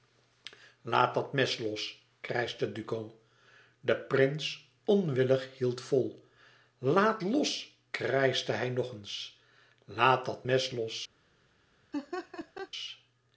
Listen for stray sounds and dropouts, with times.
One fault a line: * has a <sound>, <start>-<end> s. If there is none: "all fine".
* has a laugh, 11.9-12.7 s